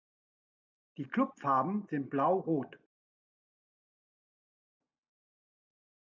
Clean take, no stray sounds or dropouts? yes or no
yes